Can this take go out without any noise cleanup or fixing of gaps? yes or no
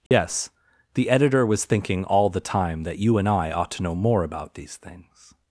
no